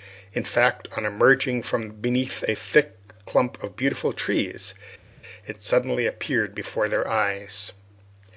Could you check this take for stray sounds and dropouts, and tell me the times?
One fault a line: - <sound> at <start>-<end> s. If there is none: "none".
none